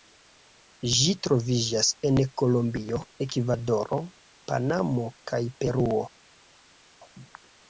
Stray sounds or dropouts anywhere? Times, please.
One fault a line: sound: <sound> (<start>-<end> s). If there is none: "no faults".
no faults